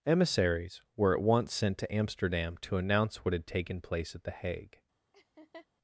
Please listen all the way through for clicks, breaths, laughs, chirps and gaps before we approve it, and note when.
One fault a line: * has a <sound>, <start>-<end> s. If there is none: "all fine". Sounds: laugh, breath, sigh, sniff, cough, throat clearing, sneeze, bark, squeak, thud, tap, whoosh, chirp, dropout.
* has a laugh, 5.1-5.7 s